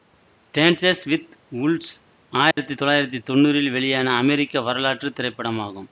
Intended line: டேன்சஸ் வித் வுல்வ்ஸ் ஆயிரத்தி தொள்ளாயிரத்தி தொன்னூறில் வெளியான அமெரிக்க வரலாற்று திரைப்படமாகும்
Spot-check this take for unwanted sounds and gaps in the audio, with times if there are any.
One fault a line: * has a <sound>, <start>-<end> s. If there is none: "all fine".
* has a dropout, 2.5-2.6 s